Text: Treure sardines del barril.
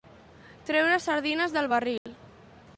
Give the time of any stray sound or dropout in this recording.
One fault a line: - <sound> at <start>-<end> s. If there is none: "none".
- dropout at 2.0-2.1 s